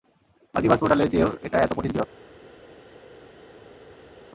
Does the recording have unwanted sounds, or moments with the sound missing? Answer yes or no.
no